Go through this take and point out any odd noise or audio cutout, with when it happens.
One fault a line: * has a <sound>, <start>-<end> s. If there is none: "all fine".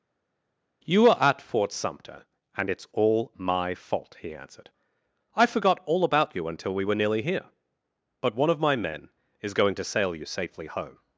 all fine